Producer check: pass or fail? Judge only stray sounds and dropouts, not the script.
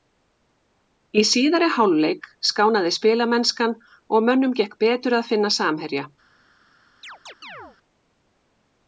fail